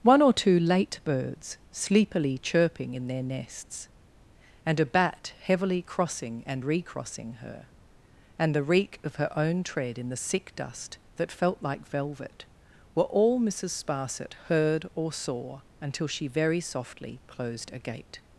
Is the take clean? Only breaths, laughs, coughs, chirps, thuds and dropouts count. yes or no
yes